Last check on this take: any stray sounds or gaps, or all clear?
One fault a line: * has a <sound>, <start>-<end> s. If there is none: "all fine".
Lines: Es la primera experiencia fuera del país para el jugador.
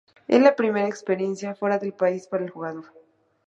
all fine